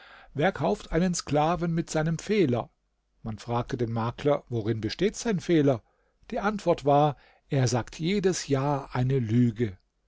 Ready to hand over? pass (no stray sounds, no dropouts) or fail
pass